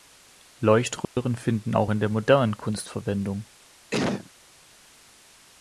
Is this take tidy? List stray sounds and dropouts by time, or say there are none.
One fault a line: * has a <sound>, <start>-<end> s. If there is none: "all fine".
* has a dropout, 1.0-1.2 s
* has a sneeze, 3.9-4.3 s